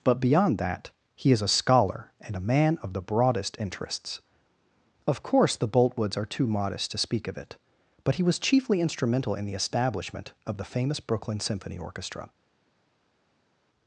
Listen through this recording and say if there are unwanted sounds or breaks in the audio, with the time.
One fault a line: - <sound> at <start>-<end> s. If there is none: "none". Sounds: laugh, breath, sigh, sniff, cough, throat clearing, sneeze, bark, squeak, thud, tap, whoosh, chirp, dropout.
none